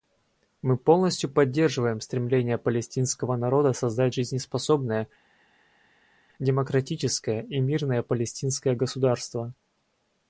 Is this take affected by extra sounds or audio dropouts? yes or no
no